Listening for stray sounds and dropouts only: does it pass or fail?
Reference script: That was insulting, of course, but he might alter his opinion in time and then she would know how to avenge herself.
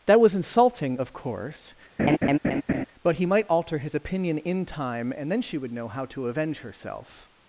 fail